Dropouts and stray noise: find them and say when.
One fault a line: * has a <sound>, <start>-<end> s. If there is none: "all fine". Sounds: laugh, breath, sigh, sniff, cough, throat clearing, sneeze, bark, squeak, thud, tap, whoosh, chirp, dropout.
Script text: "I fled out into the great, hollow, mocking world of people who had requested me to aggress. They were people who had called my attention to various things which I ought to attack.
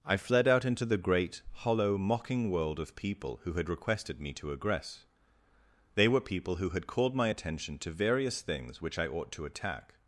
all fine